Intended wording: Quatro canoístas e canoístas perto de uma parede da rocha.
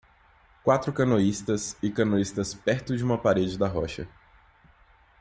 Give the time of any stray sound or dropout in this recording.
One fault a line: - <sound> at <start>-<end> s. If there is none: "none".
none